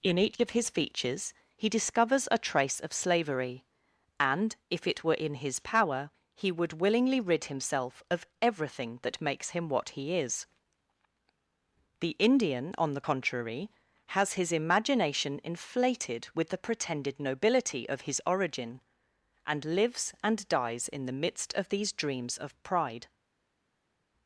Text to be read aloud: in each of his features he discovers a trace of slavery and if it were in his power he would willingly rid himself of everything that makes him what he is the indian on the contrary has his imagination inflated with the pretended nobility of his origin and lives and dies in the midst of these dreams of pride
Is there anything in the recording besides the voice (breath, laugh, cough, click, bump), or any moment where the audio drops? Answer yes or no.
no